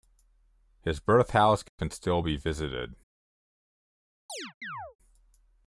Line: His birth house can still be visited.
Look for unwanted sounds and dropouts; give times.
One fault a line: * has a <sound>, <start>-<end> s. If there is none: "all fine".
* has a chirp, 4.3-5.0 s